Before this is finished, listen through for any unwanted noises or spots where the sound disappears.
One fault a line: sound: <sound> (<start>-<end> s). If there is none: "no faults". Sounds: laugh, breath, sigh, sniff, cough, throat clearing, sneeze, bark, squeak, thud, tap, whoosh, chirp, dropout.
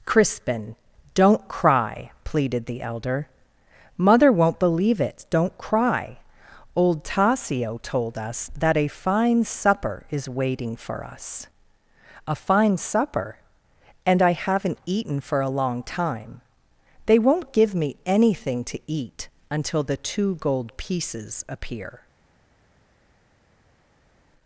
no faults